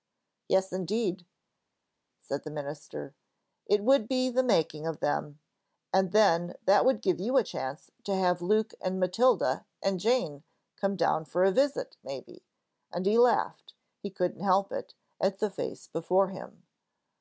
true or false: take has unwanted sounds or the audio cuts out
false